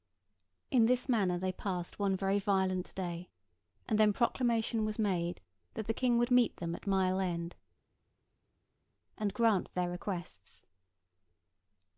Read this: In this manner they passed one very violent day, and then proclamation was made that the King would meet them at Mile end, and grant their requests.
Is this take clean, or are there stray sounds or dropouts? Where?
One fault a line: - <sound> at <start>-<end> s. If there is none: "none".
none